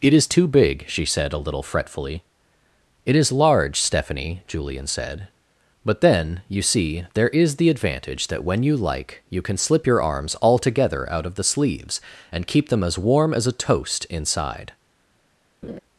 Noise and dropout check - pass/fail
fail